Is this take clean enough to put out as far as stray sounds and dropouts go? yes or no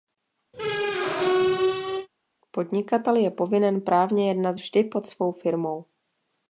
no